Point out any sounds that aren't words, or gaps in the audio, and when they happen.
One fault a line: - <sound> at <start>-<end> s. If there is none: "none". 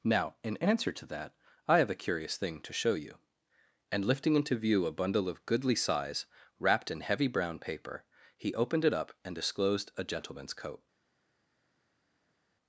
none